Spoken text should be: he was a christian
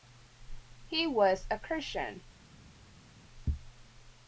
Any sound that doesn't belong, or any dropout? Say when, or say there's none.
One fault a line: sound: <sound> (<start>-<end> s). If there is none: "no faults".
no faults